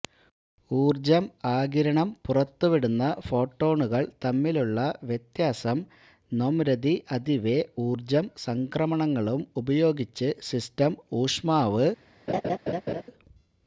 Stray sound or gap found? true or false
true